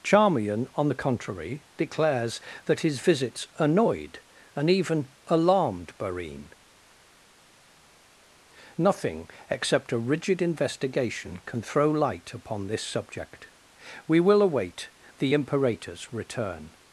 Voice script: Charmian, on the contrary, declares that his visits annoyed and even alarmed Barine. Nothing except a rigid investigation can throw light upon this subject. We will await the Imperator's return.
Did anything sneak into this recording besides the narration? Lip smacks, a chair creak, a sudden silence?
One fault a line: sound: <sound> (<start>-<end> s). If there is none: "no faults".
no faults